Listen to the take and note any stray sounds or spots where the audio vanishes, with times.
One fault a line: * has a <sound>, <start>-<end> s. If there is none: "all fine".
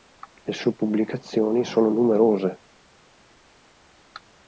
all fine